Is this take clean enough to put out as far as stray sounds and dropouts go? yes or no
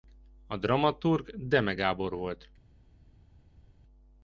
yes